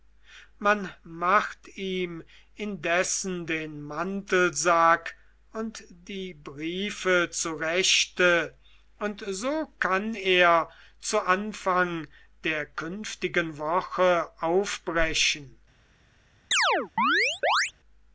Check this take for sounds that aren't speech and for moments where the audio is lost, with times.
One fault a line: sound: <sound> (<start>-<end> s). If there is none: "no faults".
sound: chirp (16.5-17.7 s)